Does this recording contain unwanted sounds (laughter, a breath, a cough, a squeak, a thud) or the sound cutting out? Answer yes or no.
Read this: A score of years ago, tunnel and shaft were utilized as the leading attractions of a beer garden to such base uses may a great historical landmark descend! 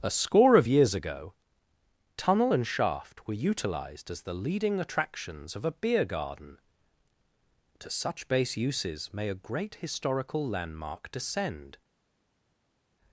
no